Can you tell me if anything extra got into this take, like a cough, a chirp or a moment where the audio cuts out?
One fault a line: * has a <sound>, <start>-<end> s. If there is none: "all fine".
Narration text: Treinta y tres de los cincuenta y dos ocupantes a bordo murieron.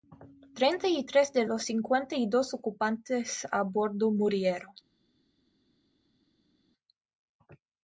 all fine